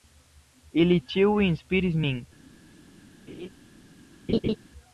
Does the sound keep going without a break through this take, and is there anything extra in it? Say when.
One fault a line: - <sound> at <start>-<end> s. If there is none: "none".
- laugh at 3.3-3.5 s
- laugh at 4.3-4.6 s